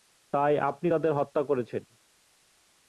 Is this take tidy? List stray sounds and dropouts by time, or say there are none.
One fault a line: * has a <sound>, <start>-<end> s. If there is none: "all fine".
all fine